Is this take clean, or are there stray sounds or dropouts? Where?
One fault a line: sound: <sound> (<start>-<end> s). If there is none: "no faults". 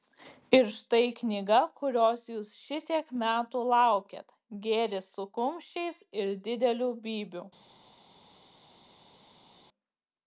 no faults